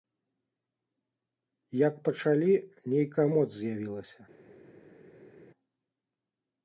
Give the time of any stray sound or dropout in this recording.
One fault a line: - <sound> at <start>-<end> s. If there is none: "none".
none